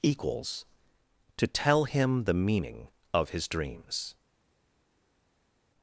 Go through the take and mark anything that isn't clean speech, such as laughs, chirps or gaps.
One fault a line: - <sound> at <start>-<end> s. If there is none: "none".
none